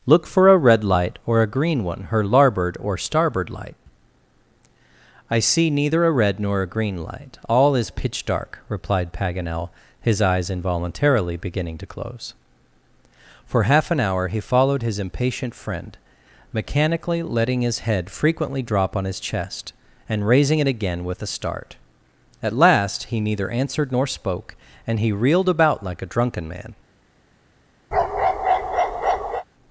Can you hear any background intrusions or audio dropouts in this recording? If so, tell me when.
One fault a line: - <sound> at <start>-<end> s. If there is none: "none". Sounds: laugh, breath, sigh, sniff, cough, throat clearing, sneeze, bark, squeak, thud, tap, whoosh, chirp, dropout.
- bark at 27.9-29.4 s